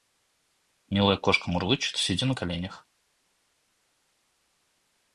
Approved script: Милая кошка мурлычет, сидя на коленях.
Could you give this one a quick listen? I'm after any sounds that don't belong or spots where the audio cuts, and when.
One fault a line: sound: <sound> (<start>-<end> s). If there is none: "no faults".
no faults